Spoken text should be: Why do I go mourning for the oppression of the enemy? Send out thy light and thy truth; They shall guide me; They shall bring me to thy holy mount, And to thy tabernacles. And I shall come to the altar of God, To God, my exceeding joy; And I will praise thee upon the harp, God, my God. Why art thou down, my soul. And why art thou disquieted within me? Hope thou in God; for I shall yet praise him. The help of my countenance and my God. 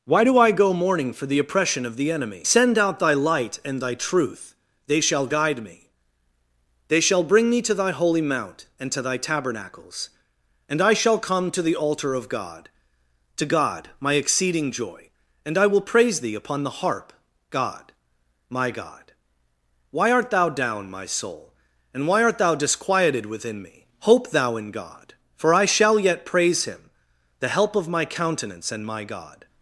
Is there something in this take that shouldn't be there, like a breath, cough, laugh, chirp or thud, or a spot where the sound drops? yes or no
no